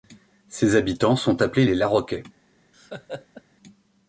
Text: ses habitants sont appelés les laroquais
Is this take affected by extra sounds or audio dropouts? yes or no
yes